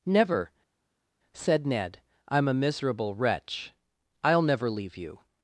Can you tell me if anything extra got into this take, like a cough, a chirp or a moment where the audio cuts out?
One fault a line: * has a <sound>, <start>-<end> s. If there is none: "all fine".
all fine